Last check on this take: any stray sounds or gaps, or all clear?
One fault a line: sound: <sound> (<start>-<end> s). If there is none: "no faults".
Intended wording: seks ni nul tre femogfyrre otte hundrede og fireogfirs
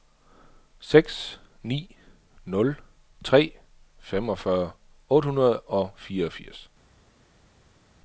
no faults